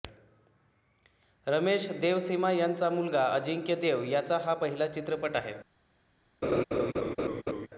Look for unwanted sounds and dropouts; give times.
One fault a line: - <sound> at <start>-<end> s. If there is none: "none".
- laugh at 6.4-7.7 s